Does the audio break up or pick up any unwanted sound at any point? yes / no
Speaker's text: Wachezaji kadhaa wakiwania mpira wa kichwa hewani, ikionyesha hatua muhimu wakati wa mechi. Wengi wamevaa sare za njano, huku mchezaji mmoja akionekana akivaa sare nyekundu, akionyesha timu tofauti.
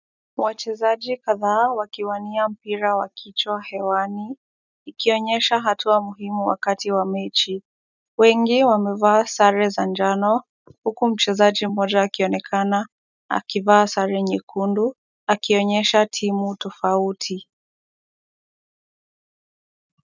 no